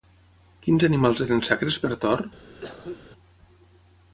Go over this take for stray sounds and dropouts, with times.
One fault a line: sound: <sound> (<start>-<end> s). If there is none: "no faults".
sound: cough (2.5-3.0 s)